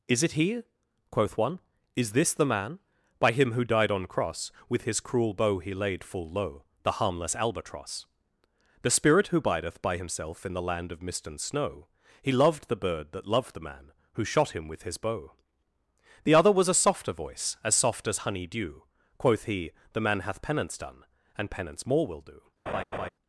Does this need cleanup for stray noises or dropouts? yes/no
yes